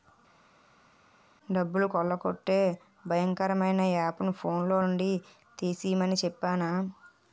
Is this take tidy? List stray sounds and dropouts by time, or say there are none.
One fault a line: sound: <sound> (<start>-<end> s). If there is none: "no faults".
no faults